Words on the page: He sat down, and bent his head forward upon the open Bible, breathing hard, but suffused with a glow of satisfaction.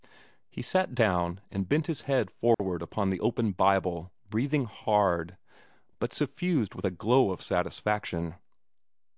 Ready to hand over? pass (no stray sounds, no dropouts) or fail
fail